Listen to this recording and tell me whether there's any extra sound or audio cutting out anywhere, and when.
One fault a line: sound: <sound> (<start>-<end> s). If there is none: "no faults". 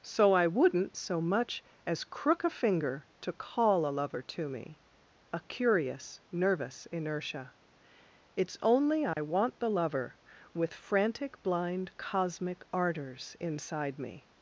sound: dropout (9.1-9.2 s)